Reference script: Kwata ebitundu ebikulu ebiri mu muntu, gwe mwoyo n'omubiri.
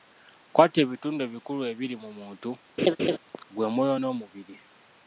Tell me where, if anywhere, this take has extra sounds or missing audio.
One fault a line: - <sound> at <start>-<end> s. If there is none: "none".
- laugh at 2.8-3.2 s